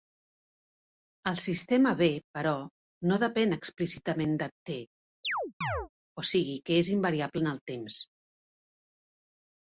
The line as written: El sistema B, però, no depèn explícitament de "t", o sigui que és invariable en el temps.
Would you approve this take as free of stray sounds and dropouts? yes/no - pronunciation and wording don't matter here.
no